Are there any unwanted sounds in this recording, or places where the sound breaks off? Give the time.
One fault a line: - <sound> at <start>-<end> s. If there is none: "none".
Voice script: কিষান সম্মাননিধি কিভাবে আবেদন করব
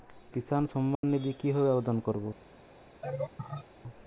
- dropout at 0.9-1.0 s
- laugh at 3.0-3.7 s